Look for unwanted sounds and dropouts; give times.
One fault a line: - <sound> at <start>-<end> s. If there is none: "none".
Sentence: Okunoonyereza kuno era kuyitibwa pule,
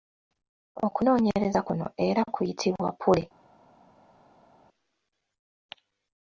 none